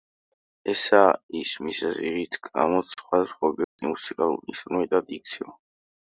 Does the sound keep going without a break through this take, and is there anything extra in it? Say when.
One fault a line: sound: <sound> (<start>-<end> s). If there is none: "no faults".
sound: dropout (3.6-3.8 s)